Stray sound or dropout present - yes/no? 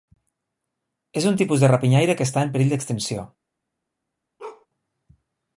yes